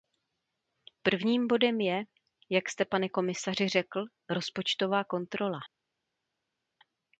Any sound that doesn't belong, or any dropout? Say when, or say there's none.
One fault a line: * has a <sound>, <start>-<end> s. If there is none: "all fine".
all fine